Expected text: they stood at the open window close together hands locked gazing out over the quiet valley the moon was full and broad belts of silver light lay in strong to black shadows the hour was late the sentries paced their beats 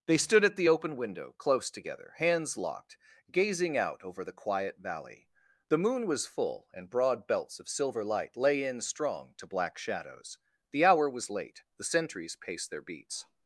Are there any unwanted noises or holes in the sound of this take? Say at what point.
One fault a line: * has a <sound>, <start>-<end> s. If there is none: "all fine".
all fine